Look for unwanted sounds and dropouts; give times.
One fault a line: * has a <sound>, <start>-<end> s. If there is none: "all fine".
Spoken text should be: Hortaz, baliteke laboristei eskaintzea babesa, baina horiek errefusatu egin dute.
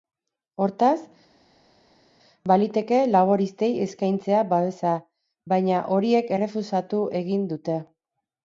all fine